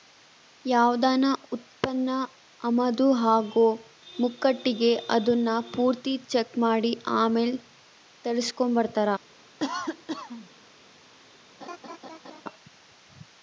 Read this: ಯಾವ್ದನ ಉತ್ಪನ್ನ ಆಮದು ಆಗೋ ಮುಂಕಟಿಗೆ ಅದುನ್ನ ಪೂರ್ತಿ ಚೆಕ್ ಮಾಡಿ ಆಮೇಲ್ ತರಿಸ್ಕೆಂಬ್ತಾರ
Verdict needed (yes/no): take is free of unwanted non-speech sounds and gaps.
no